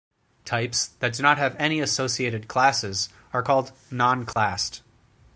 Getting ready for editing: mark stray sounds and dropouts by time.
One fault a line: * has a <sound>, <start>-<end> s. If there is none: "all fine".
* has a dropout, 4.3-4.4 s